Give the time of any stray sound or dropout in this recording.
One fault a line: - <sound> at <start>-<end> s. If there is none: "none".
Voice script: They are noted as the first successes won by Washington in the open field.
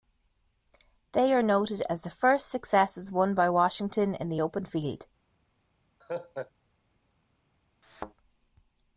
- laugh at 6.0-6.5 s
- thud at 7.8-8.1 s